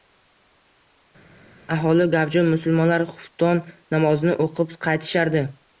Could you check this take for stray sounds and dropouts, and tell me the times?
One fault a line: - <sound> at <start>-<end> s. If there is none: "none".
none